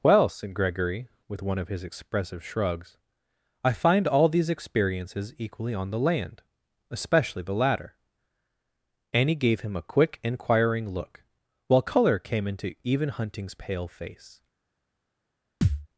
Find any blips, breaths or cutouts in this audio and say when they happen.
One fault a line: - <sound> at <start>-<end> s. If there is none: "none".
- thud at 15.6-15.9 s